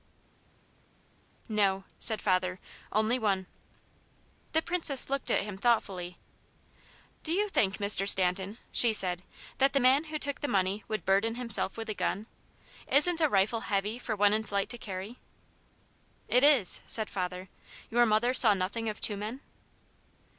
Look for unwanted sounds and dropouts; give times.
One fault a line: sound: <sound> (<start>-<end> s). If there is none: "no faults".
no faults